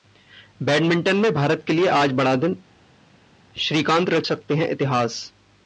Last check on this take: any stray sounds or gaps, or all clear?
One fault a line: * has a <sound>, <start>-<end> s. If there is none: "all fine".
all fine